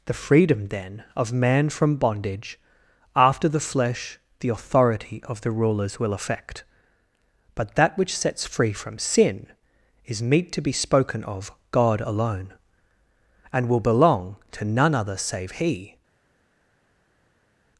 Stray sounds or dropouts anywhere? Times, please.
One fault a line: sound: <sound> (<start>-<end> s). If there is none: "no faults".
no faults